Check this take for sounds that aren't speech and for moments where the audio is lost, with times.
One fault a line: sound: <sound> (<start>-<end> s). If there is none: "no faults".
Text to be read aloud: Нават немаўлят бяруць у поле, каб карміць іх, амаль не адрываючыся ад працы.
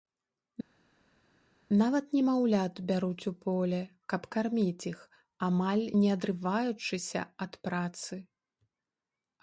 no faults